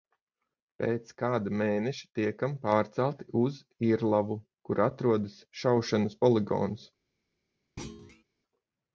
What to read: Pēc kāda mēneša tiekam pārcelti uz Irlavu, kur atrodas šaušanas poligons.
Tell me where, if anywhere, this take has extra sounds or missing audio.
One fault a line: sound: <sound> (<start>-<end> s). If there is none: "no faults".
sound: thud (7.8-8.2 s)